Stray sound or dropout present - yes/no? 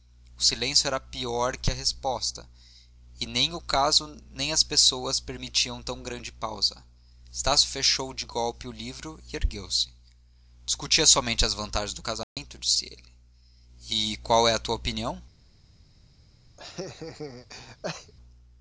yes